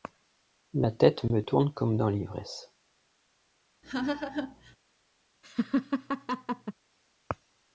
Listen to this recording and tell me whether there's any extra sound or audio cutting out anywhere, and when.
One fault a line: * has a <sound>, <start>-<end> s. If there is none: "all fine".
* has a laugh, 3.8-4.8 s
* has a laugh, 5.4-6.7 s